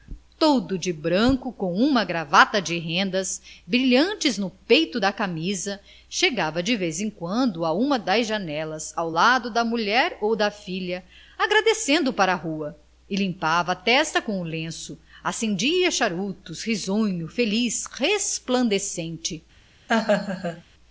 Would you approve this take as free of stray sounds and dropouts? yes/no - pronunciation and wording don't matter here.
no